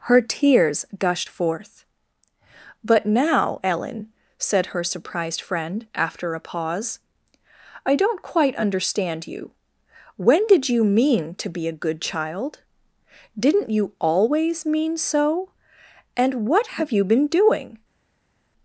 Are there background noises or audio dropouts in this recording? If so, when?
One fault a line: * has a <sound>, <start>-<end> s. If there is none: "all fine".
all fine